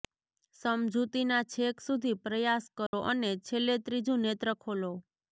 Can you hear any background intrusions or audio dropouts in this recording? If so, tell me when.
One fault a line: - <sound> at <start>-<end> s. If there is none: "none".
- dropout at 2.9-2.9 s